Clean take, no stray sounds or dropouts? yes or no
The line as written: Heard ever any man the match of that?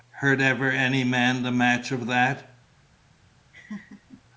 no